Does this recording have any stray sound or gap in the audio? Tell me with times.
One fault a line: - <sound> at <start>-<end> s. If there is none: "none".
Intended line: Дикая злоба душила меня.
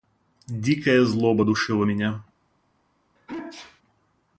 - sneeze at 3.2-3.8 s